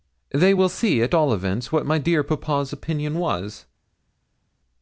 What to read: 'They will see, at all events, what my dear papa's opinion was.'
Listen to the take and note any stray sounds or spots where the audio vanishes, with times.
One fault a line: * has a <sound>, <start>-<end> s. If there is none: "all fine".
all fine